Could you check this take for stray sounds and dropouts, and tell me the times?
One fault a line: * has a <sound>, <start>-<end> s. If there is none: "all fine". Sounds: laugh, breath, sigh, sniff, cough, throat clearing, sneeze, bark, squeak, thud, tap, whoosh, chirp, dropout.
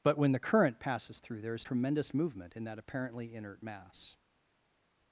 all fine